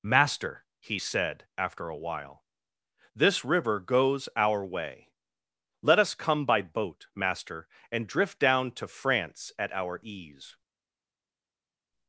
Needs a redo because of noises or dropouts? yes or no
no